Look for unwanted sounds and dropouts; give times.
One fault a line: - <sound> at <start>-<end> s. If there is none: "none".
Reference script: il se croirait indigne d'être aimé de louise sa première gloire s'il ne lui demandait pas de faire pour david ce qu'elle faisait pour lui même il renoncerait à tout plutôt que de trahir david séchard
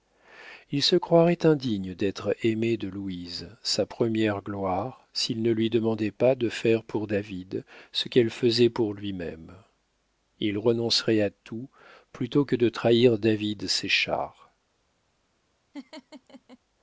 - laugh at 15.7-16.6 s